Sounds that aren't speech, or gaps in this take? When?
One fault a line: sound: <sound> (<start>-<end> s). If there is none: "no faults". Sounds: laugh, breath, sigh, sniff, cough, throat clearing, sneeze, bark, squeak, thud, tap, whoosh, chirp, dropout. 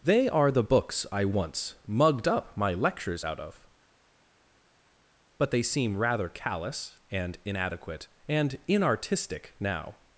no faults